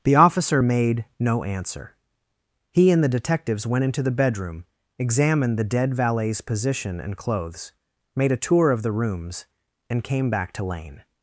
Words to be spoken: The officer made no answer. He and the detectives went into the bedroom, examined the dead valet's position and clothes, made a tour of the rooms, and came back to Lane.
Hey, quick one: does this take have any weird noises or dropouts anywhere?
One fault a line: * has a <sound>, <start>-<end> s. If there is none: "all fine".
all fine